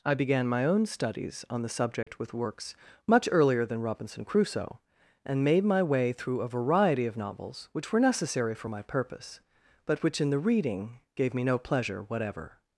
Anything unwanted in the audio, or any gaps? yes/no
yes